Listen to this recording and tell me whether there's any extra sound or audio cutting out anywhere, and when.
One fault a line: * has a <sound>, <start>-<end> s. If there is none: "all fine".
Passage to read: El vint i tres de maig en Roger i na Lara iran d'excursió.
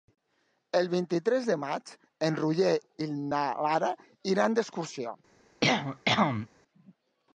* has a cough, 5.6-6.5 s